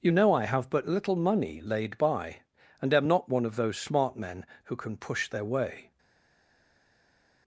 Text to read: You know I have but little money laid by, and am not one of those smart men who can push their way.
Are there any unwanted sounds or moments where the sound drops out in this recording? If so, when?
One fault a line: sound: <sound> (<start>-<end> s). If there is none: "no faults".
no faults